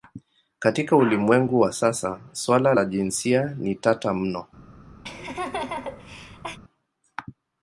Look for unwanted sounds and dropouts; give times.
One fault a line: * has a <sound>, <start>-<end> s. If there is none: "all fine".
* has a laugh, 5.0-6.6 s